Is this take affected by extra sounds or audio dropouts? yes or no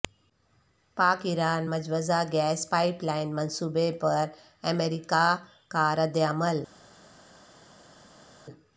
no